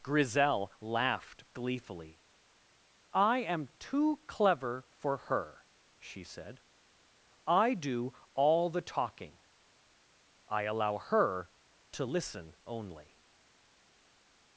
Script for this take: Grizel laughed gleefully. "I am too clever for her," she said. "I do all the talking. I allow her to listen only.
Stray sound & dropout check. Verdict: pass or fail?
pass